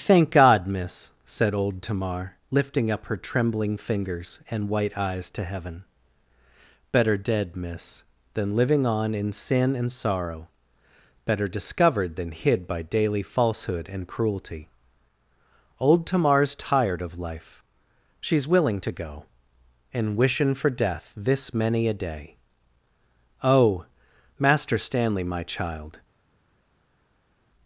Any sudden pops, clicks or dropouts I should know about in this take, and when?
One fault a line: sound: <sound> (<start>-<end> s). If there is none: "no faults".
no faults